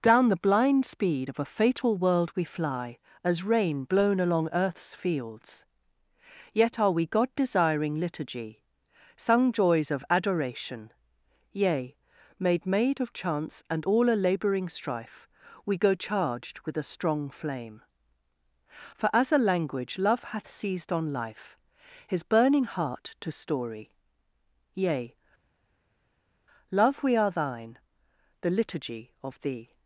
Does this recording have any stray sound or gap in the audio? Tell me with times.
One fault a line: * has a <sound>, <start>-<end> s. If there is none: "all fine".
all fine